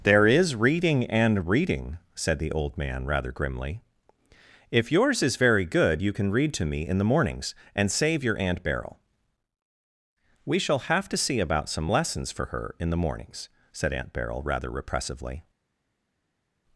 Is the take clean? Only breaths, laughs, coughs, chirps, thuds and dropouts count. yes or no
yes